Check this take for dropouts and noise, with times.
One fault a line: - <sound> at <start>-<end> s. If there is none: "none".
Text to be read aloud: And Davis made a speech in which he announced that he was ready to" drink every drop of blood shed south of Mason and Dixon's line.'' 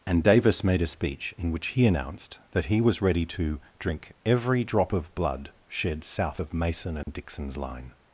- dropout at 7.0-7.1 s